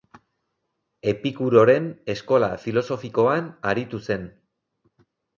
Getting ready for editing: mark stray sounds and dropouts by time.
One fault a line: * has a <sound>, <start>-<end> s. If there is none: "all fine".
all fine